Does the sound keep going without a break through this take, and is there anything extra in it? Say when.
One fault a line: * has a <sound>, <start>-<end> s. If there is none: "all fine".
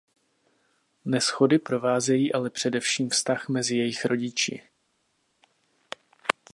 all fine